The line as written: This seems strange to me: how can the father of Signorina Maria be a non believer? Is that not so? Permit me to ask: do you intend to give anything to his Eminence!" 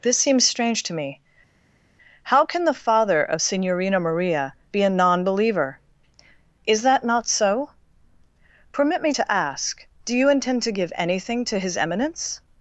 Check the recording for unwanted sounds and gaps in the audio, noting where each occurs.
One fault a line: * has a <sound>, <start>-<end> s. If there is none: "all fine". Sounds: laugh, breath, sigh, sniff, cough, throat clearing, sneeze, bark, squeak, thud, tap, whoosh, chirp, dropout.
all fine